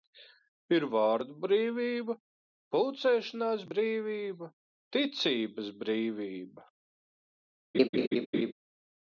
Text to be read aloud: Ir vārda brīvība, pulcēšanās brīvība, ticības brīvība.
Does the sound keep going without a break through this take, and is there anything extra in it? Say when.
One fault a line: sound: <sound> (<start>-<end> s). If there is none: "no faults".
sound: laugh (7.7-8.5 s)